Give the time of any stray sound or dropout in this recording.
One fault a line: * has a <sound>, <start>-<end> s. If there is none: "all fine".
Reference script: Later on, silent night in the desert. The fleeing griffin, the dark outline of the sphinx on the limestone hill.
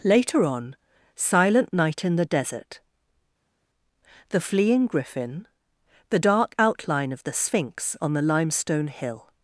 all fine